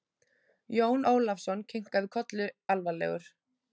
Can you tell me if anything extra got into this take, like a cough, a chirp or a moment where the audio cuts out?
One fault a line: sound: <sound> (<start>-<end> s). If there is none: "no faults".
no faults